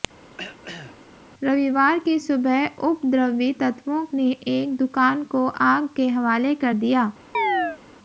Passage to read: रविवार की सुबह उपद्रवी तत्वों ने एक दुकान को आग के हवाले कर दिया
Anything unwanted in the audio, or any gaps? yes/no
yes